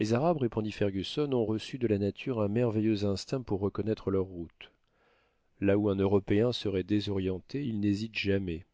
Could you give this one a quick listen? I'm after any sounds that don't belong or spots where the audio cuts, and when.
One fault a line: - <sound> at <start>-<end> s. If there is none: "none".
none